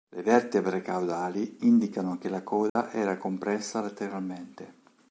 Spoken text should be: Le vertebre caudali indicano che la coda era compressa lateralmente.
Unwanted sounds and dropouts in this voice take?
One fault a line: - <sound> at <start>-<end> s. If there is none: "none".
- dropout at 2.7-2.8 s